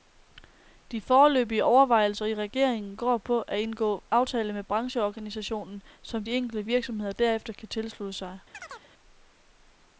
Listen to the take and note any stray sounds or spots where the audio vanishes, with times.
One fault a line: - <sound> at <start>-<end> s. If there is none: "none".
- chirp at 8.5-8.9 s